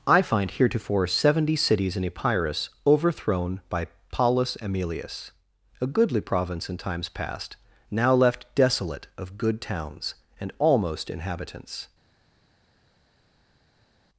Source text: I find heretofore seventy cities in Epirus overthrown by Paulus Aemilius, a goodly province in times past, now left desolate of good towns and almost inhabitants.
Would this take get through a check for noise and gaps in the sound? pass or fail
pass